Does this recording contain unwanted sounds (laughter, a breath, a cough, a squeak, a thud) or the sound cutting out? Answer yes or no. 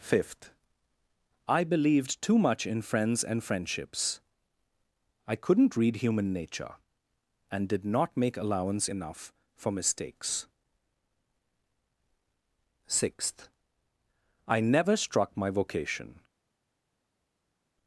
no